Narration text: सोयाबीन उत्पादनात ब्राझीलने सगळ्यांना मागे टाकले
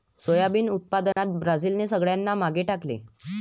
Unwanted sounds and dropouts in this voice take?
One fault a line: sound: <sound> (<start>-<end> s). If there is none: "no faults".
sound: dropout (1.1-1.2 s)